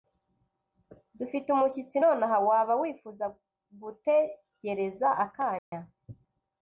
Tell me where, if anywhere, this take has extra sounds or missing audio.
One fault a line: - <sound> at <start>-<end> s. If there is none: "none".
- dropout at 5.6-5.7 s